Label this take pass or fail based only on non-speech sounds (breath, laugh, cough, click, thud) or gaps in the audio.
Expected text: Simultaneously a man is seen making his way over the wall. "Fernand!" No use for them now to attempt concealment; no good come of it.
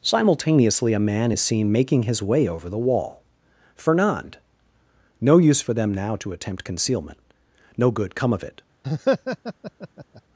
fail